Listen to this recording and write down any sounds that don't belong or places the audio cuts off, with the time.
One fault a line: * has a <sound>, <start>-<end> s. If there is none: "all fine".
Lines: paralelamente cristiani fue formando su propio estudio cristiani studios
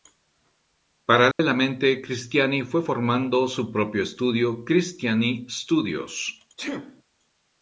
* has a dropout, 1.3-1.4 s
* has a sneeze, 6.6-7.0 s